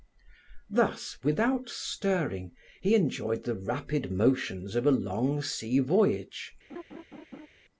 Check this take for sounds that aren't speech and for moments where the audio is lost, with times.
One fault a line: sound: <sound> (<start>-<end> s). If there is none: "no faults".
sound: laugh (6.7-7.5 s)